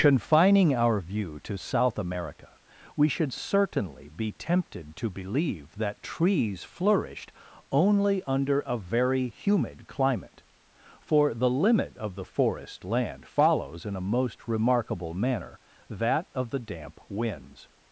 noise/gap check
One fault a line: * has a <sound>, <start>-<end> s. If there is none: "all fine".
all fine